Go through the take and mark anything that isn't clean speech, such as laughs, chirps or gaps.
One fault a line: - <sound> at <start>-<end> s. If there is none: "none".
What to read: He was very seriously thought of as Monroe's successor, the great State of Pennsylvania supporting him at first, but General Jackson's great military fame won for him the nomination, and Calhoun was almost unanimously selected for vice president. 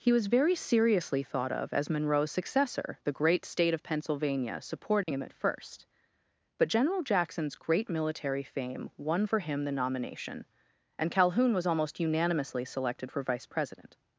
- dropout at 5.0-5.1 s